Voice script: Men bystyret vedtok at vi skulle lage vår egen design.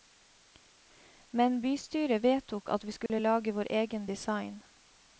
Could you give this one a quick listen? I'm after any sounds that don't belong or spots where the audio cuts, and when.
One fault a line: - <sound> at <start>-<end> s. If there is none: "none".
- dropout at 3.1-3.1 s